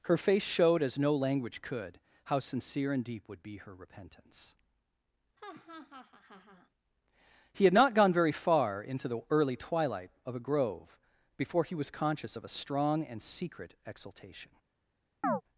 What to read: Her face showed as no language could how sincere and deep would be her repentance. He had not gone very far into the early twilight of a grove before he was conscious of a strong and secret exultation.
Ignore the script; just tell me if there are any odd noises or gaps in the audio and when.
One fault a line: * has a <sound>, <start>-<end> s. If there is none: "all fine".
* has a laugh, 5.4-6.7 s
* has a chirp, 15.2-15.4 s